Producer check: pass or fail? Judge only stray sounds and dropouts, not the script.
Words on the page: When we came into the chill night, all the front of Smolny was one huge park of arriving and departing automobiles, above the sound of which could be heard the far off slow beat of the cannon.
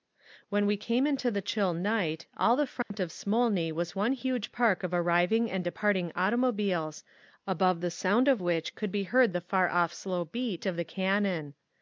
fail